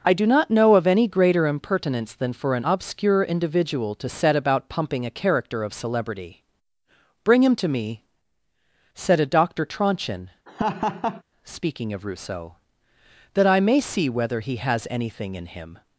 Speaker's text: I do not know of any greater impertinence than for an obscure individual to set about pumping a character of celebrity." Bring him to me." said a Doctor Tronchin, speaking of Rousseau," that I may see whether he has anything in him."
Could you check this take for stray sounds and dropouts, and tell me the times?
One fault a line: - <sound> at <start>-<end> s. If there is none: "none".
- laugh at 10.5-11.2 s